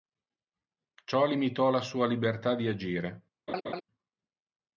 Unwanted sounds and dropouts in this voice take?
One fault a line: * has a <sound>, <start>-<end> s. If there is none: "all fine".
* has a laugh, 3.5-3.8 s